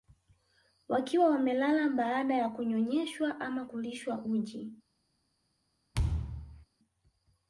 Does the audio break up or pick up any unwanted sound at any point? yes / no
yes